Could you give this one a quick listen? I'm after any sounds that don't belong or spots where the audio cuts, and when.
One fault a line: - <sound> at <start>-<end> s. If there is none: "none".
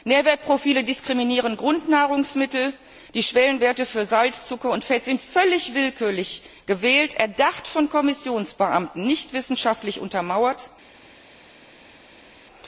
none